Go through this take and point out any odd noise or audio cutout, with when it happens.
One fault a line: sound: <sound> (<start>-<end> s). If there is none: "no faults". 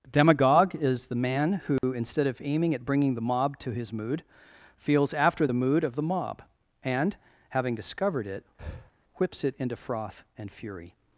sound: dropout (1.8-1.8 s)
sound: breath (8.6-8.9 s)